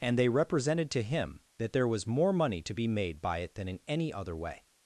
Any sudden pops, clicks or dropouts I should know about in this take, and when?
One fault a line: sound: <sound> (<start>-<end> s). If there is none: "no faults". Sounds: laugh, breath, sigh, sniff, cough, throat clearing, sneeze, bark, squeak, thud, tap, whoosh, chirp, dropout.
no faults